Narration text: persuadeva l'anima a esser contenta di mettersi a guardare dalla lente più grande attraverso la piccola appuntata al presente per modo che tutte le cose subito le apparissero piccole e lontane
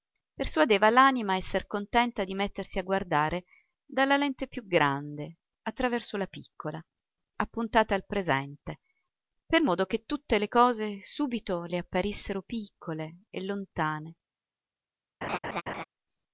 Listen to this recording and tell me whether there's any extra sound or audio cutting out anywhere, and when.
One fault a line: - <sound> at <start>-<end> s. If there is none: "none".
- laugh at 15.2-15.8 s